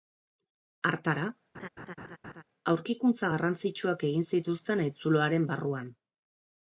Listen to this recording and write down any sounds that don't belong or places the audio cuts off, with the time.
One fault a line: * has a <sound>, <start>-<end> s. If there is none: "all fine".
* has a laugh, 1.5-2.4 s